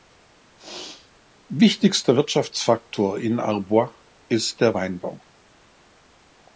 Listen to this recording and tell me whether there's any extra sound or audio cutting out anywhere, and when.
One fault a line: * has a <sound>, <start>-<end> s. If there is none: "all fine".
* has a sneeze, 0.6-1.1 s